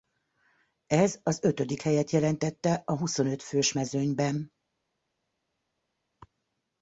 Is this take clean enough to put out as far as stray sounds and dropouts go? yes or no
yes